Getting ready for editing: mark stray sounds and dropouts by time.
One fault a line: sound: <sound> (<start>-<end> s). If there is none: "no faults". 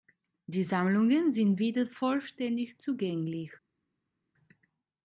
no faults